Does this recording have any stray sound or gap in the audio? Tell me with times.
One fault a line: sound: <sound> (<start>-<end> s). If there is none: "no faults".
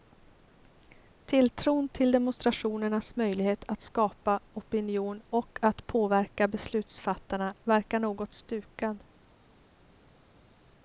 no faults